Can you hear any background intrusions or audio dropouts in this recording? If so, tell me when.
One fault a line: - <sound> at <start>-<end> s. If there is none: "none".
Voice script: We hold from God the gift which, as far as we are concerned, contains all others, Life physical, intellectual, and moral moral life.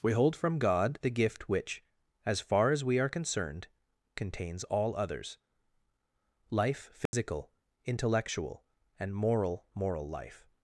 - dropout at 7.1-7.1 s